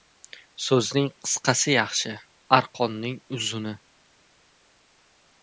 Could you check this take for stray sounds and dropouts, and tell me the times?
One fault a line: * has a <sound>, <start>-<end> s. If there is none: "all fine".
all fine